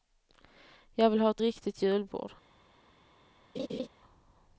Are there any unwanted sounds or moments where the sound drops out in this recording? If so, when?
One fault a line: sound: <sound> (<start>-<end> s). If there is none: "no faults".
sound: laugh (3.5-3.9 s)